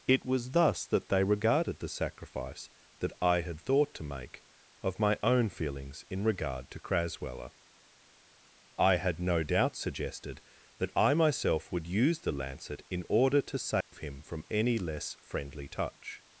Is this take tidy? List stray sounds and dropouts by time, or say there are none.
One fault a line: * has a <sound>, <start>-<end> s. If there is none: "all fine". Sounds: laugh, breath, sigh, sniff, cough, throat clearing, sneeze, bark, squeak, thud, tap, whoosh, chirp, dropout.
* has a dropout, 13.8-13.9 s